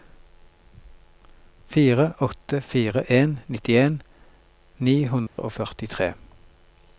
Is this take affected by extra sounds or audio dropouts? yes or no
yes